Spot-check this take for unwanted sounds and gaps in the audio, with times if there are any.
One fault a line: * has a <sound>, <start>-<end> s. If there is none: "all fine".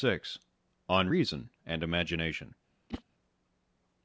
* has a whoosh, 2.9-3.0 s